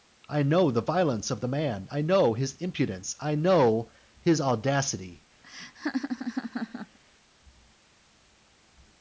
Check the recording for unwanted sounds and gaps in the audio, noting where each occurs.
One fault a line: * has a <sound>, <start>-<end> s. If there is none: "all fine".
* has a laugh, 5.4-7.0 s